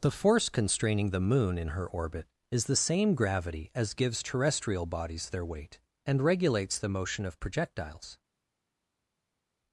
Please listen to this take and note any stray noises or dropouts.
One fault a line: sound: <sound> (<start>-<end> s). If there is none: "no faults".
no faults